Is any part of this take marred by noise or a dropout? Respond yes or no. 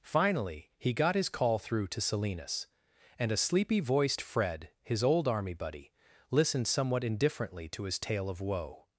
no